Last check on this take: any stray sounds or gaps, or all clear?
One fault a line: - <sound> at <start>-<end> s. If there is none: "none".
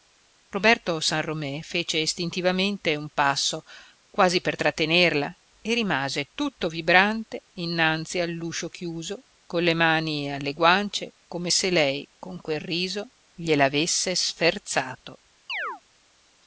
- chirp at 15.5-15.8 s